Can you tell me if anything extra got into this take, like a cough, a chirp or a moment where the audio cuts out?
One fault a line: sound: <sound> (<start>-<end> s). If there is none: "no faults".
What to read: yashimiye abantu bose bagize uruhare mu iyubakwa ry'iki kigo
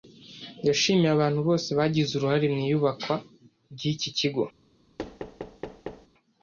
sound: thud (5.0-6.1 s)